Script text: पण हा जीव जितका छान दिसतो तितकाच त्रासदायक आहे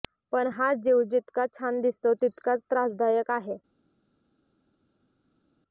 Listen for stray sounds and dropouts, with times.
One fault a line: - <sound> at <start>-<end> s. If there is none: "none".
none